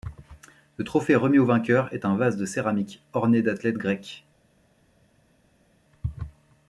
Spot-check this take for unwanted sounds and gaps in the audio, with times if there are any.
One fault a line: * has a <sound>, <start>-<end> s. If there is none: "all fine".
all fine